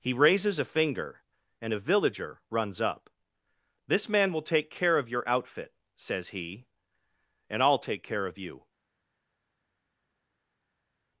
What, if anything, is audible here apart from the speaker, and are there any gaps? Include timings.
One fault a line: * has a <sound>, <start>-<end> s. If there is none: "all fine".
all fine